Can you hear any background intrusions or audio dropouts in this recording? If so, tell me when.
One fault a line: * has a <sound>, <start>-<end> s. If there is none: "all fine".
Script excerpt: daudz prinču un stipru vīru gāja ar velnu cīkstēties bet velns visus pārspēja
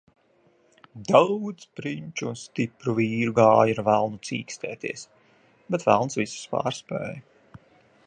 all fine